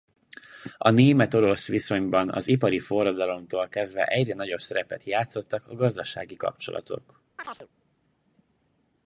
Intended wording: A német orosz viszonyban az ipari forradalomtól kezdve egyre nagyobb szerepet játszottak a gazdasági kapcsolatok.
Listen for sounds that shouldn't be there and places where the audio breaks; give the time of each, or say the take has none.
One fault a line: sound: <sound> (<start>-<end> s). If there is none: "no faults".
sound: chirp (7.4-7.7 s)